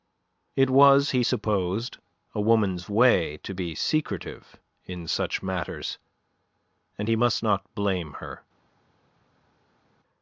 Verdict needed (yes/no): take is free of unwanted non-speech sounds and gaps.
yes